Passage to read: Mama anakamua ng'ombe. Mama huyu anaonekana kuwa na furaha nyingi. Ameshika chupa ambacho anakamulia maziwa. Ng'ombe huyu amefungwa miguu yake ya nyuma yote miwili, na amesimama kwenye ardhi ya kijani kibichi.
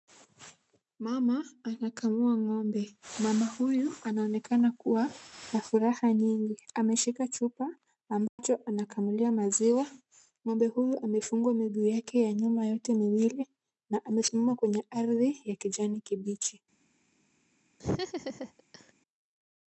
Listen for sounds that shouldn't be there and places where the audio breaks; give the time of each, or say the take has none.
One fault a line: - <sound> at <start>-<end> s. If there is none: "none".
- dropout at 8.3-8.4 s
- laugh at 17.8-18.9 s